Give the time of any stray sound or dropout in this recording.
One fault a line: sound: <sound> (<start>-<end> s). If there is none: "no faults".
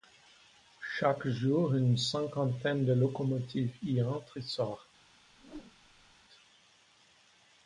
sound: whoosh (5.3-6.2 s)